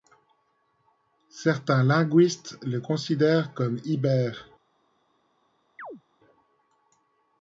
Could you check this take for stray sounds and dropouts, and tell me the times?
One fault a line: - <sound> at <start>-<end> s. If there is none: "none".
- chirp at 5.8-6.0 s